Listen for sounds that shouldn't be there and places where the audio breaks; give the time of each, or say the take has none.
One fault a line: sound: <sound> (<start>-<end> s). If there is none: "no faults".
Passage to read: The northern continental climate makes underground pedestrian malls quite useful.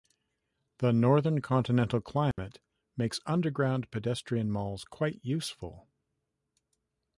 sound: dropout (2.3-2.4 s)